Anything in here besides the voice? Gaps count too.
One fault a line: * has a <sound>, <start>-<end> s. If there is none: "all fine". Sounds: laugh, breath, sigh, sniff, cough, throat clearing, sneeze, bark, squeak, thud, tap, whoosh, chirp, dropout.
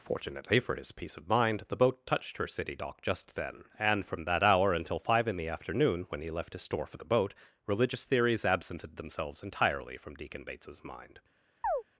* has a chirp, 11.6-11.8 s